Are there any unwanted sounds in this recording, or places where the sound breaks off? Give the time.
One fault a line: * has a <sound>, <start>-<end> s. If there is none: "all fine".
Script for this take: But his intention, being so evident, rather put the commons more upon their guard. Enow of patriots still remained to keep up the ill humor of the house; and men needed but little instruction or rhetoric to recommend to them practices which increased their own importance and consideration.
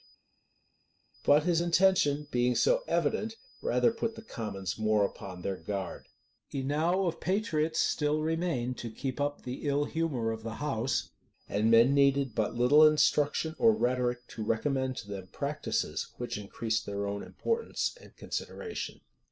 all fine